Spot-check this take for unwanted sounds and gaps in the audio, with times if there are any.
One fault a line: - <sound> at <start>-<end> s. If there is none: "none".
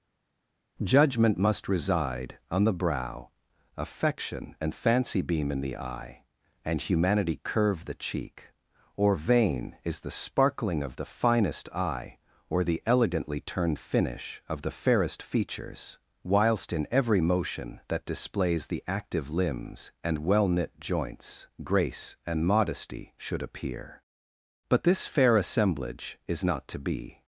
none